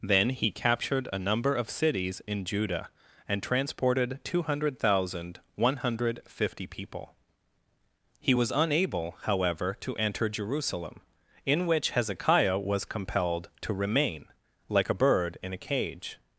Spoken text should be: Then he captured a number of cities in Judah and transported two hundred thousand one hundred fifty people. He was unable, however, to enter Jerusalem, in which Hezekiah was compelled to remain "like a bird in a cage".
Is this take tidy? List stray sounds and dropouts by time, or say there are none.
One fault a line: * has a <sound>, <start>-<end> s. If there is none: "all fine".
all fine